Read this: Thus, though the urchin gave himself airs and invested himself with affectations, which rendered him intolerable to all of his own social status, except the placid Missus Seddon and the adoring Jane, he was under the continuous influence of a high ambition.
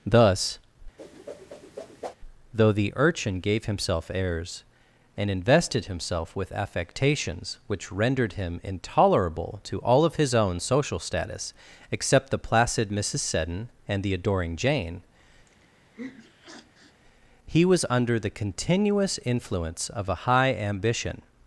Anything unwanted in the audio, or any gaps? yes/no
yes